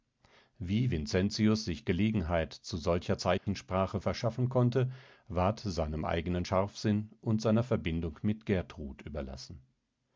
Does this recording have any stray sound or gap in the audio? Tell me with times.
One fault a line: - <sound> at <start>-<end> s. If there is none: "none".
- dropout at 3.4-3.5 s